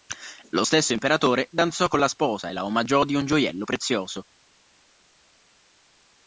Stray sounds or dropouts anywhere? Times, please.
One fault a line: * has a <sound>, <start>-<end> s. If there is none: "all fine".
all fine